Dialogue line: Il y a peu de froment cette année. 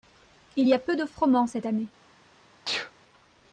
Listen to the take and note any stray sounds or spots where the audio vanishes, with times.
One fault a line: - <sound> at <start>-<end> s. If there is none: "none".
- sneeze at 2.6-2.9 s